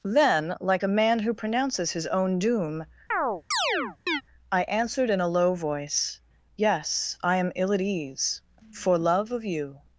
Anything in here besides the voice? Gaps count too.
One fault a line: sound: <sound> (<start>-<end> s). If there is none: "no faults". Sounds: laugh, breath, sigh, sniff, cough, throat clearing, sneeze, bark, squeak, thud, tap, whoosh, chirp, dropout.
sound: chirp (3.1-4.2 s)